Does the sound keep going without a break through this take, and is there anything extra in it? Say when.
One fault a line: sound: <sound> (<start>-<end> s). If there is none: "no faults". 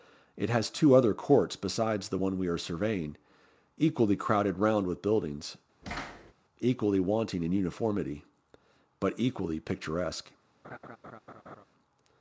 sound: thud (5.8-6.3 s)
sound: laugh (10.6-11.6 s)